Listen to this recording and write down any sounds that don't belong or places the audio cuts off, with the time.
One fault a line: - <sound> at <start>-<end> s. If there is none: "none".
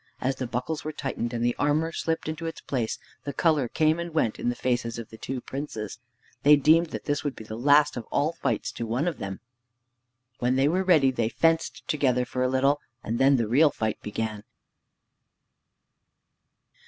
none